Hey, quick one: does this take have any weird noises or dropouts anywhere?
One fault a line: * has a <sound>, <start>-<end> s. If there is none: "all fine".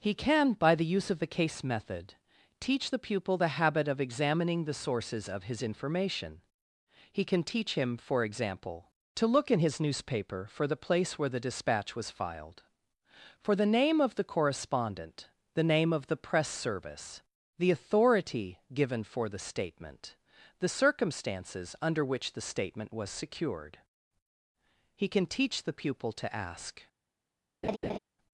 * has a laugh, 27.6-28.0 s